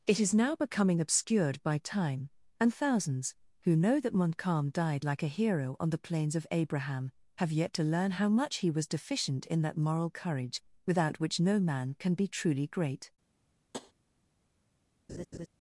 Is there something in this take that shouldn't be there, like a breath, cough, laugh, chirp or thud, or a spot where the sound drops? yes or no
yes